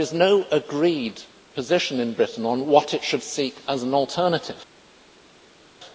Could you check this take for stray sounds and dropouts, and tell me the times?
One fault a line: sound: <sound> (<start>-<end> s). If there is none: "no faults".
no faults